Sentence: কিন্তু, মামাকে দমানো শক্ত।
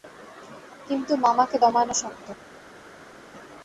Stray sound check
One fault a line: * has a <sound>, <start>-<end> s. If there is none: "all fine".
all fine